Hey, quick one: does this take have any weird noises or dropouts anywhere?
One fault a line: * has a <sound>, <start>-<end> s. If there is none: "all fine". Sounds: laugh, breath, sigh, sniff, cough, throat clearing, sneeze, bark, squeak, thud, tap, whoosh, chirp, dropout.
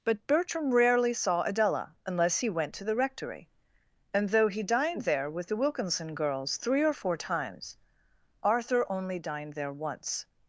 all fine